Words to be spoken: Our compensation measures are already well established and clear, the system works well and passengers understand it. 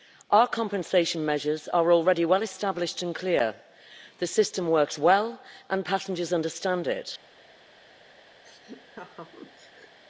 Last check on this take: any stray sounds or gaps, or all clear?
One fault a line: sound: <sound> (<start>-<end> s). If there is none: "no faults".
sound: laugh (8.4-10.0 s)